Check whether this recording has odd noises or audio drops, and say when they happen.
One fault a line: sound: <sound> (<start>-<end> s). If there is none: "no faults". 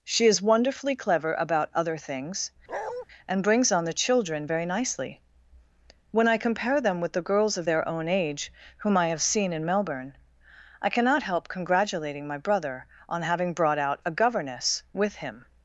sound: bark (2.7-3.1 s)